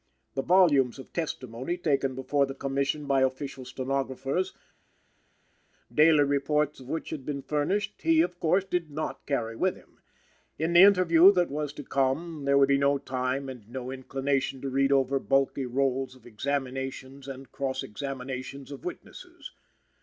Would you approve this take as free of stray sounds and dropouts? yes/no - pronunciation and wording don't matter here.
yes